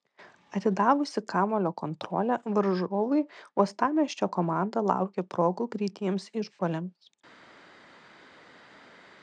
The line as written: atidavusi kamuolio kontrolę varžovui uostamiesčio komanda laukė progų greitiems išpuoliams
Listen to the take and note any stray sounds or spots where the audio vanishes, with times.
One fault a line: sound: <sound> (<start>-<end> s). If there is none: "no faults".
no faults